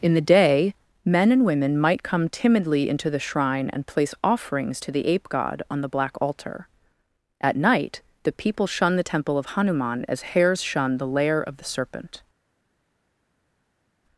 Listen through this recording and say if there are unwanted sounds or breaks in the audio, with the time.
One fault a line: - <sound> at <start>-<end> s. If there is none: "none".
none